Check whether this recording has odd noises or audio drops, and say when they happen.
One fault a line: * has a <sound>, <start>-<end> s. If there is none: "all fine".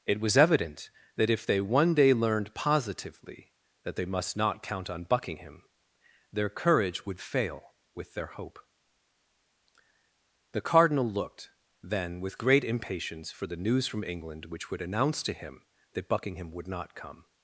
all fine